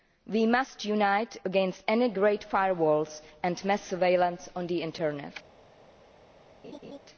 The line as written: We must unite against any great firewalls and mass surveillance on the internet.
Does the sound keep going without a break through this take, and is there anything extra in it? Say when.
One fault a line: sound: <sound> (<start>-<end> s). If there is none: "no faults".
sound: laugh (6.6-7.0 s)